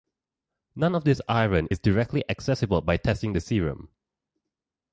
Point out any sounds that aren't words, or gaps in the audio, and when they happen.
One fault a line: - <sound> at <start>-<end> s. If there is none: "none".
none